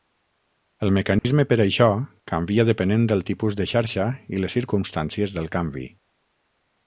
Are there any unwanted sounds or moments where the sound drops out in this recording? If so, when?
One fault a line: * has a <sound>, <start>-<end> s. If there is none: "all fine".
* has a dropout, 1.2-1.2 s